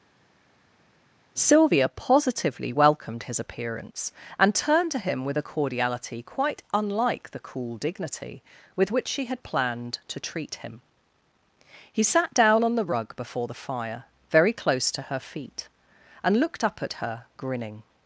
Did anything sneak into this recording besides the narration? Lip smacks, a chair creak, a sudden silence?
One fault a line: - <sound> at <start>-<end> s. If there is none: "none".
none